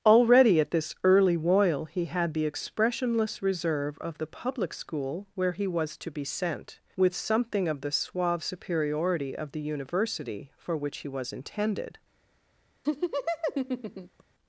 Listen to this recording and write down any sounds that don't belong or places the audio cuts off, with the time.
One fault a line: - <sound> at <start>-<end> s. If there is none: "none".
- laugh at 12.8-14.2 s